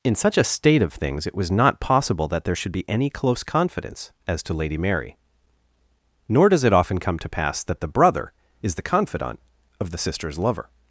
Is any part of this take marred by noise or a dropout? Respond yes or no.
no